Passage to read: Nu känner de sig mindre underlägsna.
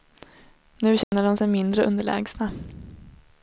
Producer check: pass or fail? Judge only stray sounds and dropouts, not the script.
fail